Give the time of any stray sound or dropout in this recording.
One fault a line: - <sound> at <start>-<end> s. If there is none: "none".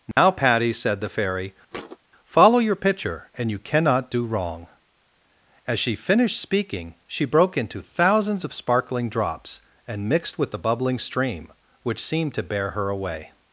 - dropout at 0.1-0.2 s
- thud at 1.7-2.0 s